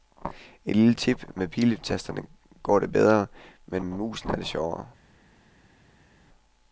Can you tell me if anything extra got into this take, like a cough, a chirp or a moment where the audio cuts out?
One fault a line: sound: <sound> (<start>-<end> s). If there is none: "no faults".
no faults